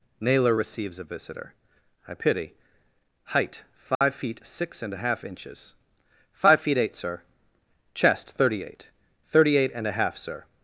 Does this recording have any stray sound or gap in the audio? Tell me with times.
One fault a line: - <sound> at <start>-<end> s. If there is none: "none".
- dropout at 3.9-4.0 s